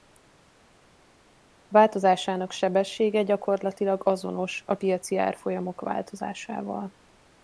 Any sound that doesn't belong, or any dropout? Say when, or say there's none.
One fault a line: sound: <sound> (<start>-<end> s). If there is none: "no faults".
no faults